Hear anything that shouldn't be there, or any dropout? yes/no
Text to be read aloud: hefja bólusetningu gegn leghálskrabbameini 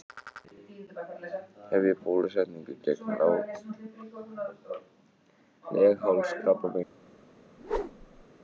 yes